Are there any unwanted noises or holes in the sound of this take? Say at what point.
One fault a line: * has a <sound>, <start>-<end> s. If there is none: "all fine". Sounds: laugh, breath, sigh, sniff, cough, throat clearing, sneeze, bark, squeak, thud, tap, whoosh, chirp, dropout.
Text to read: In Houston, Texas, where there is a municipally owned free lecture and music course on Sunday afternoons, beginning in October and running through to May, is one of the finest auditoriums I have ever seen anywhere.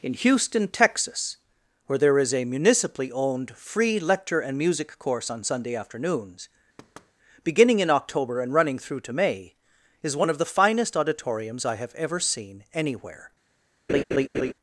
* has a thud, 6.8-7.1 s
* has a laugh, 13.9-14.5 s